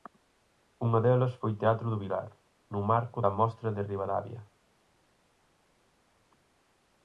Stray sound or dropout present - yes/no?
no